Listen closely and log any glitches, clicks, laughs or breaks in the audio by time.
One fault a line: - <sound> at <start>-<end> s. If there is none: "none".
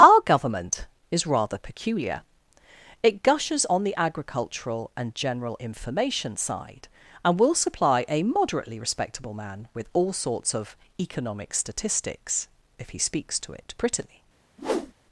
- whoosh at 14.6-14.9 s